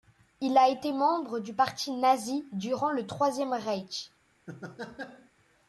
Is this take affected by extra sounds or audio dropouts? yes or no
yes